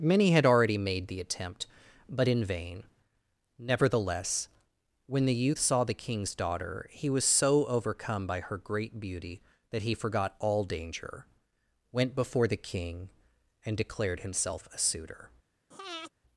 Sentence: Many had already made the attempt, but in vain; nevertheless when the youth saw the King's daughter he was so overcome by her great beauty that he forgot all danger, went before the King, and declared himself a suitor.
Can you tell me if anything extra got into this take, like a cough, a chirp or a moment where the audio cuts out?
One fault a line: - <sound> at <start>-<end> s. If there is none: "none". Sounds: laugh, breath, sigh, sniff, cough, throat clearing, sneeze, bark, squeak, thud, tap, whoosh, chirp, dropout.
- breath at 15.7-16.1 s